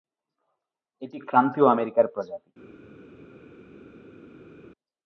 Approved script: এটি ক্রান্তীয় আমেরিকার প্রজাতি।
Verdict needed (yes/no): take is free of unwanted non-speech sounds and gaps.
yes